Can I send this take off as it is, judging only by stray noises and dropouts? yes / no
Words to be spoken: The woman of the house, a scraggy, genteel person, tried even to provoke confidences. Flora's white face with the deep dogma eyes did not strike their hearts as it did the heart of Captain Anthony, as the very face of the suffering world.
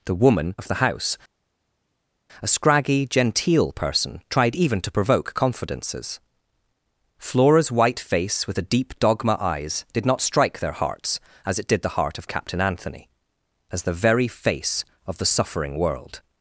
yes